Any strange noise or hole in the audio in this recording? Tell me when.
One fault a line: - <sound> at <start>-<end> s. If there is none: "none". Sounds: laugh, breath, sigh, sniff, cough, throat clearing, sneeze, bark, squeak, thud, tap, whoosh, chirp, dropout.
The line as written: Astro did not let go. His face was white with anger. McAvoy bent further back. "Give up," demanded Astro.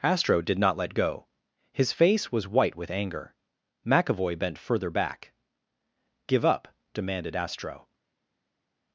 none